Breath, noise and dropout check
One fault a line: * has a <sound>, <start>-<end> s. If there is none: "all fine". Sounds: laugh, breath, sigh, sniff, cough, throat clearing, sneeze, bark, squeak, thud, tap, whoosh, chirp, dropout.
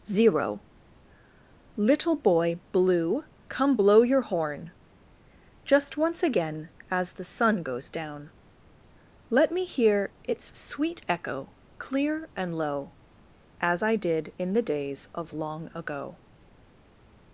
all fine